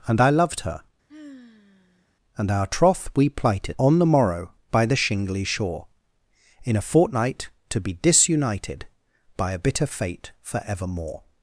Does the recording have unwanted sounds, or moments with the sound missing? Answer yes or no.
yes